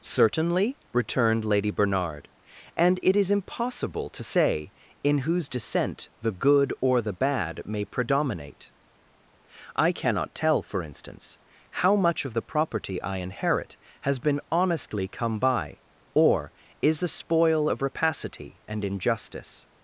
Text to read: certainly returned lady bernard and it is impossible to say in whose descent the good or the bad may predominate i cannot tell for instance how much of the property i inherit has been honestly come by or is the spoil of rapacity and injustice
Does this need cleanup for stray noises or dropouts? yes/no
no